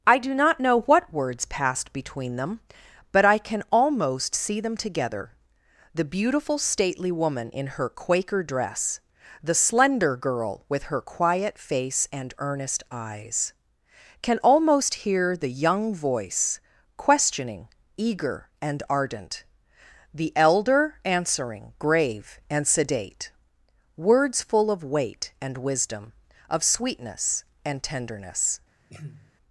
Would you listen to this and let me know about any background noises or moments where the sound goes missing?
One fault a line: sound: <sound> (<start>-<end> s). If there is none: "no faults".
sound: throat clearing (28.9-29.3 s)